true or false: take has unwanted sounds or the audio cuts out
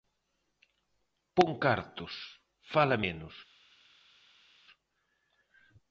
false